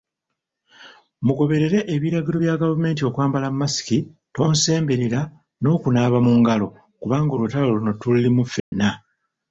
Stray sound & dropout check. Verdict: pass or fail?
fail